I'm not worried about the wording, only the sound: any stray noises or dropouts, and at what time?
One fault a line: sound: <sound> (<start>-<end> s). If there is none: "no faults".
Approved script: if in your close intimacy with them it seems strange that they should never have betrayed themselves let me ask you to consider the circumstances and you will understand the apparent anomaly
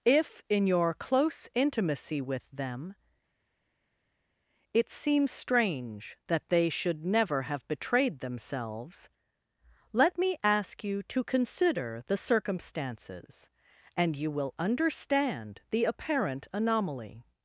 no faults